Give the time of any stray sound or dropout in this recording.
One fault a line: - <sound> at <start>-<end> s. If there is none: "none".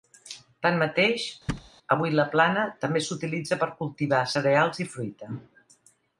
- thud at 1.5-1.7 s